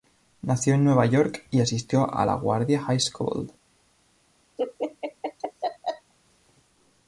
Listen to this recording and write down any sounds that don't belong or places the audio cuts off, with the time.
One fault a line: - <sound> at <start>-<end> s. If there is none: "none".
- laugh at 4.6-6.1 s